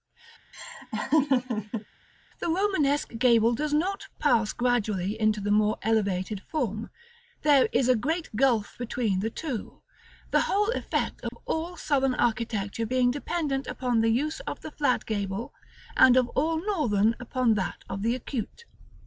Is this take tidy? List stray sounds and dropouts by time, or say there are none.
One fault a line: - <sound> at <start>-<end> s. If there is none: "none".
- laugh at 0.5-1.9 s
- dropout at 11.3-11.3 s